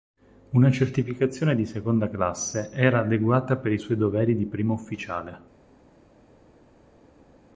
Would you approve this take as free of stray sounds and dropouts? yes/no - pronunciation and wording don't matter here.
yes